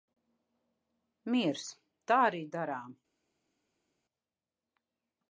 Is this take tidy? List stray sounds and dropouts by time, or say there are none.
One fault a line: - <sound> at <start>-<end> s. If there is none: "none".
none